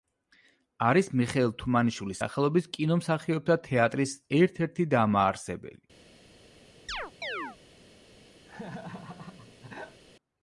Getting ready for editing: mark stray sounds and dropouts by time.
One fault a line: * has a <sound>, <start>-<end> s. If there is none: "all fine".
* has a chirp, 6.9-7.6 s
* has a laugh, 8.5-10.0 s